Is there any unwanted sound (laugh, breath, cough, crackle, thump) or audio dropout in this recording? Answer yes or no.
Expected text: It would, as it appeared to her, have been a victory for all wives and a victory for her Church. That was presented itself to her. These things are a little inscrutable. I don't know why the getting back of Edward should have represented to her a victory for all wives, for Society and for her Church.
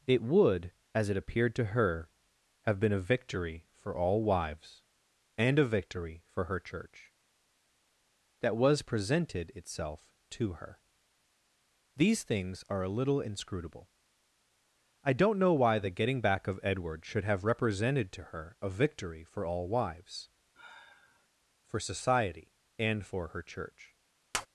yes